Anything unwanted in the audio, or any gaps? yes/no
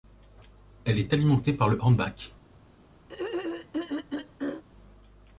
yes